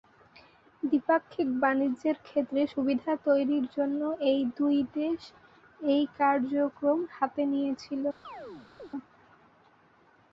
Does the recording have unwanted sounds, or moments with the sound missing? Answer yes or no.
yes